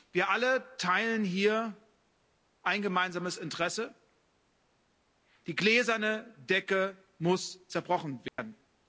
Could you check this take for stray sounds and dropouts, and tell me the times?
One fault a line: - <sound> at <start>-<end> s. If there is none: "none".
- dropout at 8.3-8.4 s